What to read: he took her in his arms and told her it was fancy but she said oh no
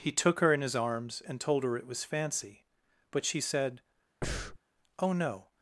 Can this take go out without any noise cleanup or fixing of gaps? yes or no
no